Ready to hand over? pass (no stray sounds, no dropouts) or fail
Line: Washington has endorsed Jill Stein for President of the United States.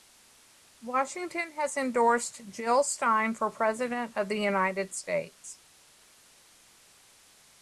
pass